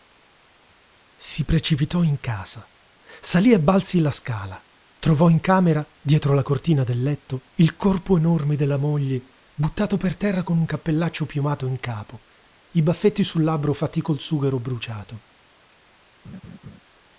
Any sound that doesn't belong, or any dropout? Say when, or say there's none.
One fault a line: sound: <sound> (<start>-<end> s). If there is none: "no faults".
sound: laugh (16.2-16.8 s)